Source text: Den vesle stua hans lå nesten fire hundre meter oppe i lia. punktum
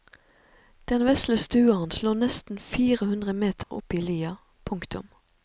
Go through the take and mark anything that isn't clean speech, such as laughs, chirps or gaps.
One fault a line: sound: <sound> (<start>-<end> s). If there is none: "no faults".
sound: dropout (3.6-3.7 s)